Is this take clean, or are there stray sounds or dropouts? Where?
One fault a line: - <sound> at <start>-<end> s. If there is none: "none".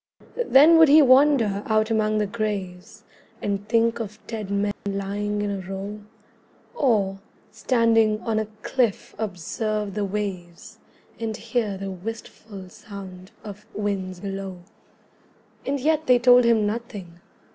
- dropout at 4.7-4.9 s